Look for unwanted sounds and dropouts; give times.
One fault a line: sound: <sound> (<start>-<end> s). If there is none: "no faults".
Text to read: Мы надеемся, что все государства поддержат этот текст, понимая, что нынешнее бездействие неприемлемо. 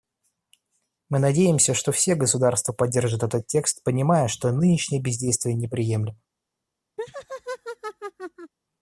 sound: laugh (7.0-8.5 s)